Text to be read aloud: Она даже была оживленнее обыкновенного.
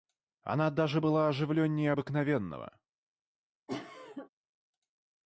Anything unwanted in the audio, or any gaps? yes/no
yes